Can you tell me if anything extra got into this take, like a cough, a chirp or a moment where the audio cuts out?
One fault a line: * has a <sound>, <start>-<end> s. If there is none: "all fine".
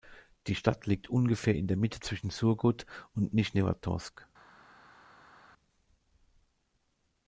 all fine